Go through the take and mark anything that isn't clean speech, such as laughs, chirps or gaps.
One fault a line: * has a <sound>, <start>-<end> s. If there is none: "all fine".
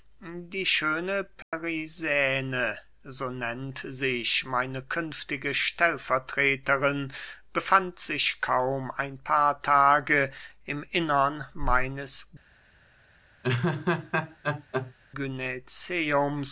* has a dropout, 1.4-1.5 s
* has a laugh, 13.4-14.9 s